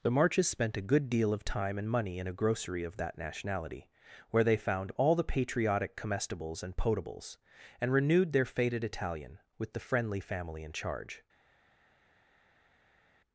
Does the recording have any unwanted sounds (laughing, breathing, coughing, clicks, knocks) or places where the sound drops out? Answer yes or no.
no